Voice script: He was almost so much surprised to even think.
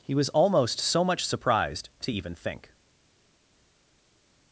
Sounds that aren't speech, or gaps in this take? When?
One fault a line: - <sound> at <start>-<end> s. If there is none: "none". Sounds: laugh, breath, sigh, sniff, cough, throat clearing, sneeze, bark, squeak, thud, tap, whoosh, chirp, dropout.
none